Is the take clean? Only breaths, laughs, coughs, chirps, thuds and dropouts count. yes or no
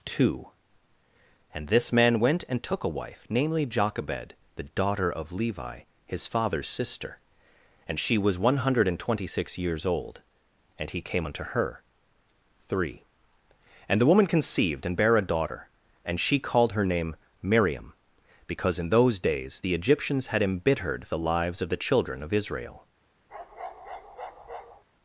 no